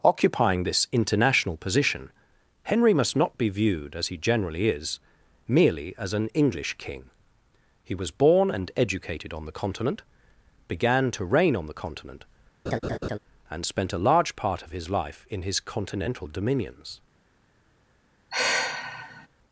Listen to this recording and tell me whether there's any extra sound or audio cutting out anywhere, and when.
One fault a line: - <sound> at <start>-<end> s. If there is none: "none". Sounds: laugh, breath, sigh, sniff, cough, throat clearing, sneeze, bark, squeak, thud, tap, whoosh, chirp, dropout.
- laugh at 12.7-13.2 s
- sigh at 18.3-19.3 s